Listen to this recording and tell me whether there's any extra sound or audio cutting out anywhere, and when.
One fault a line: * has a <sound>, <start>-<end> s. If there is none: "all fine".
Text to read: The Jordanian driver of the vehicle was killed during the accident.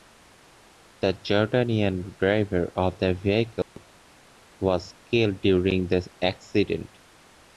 * has a dropout, 3.6-3.8 s